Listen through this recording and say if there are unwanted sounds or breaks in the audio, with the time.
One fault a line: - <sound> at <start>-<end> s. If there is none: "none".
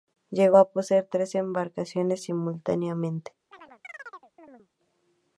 - chirp at 3.5-4.7 s